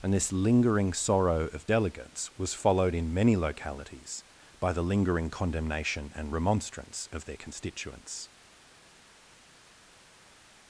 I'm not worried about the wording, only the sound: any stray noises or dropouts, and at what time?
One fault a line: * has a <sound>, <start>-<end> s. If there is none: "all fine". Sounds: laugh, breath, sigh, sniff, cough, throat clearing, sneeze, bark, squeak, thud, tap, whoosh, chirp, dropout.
all fine